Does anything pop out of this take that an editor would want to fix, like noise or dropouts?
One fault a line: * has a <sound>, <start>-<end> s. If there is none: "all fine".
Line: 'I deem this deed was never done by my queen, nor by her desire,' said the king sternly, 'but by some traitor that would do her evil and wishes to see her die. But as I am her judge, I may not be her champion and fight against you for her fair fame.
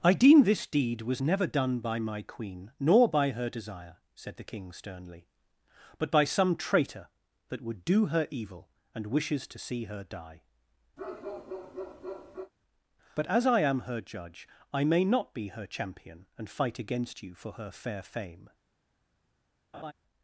* has a bark, 11.0-12.5 s
* has a laugh, 19.7-19.9 s